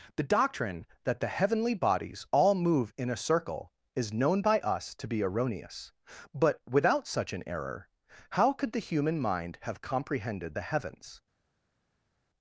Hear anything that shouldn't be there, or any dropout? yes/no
no